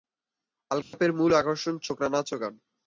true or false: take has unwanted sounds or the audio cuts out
true